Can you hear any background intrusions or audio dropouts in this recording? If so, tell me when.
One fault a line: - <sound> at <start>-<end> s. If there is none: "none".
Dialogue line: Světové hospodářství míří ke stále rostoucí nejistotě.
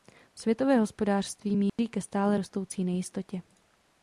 - dropout at 1.7-1.8 s